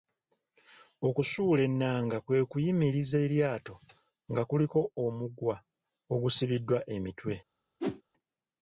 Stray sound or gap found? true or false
true